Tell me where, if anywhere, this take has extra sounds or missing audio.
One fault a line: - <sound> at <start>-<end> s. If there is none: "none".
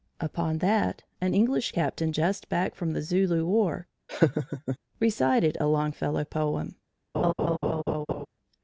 - laugh at 4.1-4.8 s
- laugh at 7.1-8.3 s